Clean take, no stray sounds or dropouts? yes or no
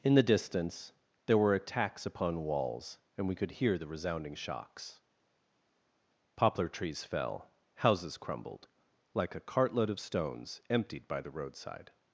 yes